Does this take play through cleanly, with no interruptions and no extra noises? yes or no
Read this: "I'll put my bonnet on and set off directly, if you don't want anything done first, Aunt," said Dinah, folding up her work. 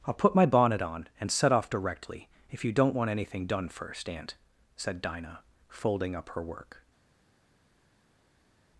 yes